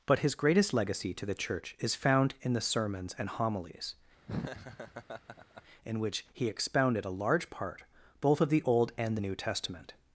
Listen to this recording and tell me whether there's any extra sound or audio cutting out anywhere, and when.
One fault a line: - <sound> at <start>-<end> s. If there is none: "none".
- laugh at 4.3-5.6 s